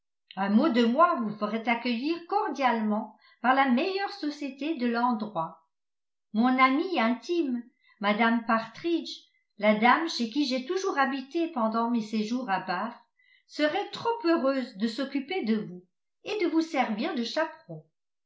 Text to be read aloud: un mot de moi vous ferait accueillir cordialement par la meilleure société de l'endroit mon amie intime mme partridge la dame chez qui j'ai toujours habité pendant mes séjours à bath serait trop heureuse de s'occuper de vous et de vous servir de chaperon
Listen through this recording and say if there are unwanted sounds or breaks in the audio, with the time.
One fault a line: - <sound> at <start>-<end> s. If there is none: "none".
none